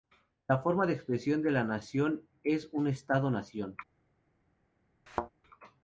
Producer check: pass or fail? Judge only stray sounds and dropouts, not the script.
fail